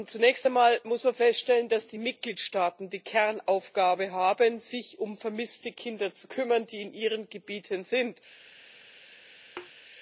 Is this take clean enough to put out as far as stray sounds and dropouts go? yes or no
no